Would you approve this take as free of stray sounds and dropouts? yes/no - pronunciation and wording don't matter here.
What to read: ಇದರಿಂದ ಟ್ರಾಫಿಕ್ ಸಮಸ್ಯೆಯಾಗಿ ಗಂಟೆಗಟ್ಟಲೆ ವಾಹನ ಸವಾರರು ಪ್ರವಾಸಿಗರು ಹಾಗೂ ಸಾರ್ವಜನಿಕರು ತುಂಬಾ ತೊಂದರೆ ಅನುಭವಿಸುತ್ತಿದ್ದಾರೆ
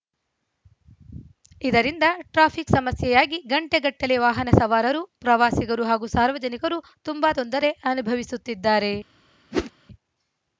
no